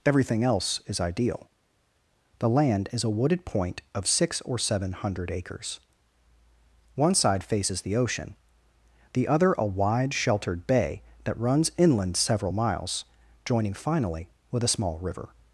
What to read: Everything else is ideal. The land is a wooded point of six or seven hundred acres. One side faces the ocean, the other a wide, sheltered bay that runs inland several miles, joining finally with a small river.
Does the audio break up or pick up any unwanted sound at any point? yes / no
no